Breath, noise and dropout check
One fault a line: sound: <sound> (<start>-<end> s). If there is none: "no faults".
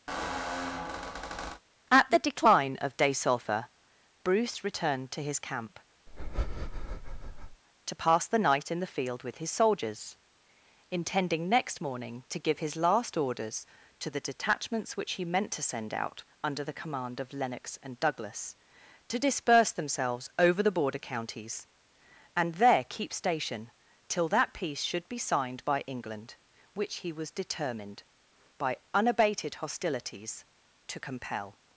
sound: squeak (0.1-1.6 s)
sound: breath (6.1-7.6 s)